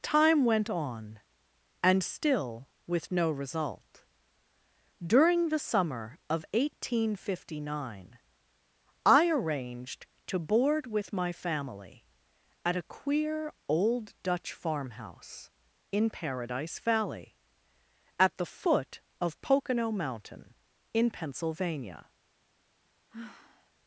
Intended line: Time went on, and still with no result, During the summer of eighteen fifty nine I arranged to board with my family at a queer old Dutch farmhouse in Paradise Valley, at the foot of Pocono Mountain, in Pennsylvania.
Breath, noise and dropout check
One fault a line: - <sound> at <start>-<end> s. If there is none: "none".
- sigh at 23.1-23.7 s